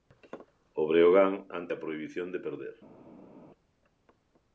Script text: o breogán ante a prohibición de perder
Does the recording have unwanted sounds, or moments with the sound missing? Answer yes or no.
no